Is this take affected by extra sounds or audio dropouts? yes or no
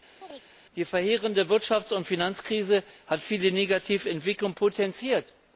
yes